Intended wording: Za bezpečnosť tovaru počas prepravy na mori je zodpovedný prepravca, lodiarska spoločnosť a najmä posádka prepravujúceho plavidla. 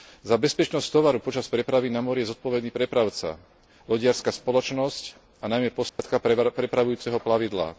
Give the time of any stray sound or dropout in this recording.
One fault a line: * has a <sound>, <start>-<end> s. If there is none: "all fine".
* has a dropout, 5.9-6.0 s